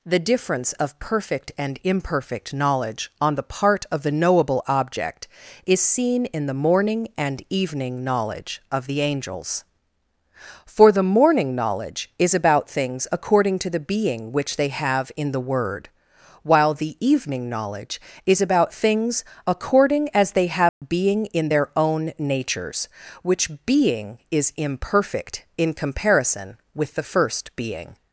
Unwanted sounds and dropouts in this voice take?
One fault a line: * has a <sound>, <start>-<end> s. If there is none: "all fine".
* has a dropout, 20.7-20.8 s